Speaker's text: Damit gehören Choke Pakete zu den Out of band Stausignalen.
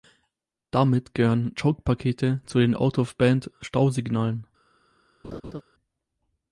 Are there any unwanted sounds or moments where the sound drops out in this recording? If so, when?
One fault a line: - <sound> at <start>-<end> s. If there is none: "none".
- laugh at 5.2-5.6 s